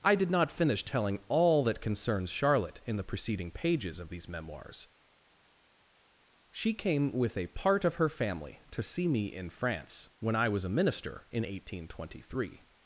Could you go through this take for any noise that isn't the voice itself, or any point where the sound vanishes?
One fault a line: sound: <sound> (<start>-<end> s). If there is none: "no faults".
no faults